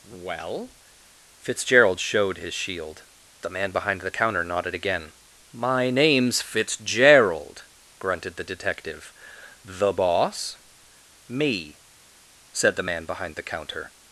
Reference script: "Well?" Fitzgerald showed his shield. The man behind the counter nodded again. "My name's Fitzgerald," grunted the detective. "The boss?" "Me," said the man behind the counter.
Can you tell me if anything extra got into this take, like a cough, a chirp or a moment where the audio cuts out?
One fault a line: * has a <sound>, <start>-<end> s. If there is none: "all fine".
all fine